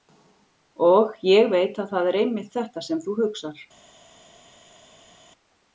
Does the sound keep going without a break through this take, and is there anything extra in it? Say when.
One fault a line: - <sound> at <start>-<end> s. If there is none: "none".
none